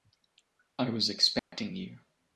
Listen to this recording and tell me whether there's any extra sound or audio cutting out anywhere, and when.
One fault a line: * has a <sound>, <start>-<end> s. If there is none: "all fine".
* has a dropout, 1.4-1.5 s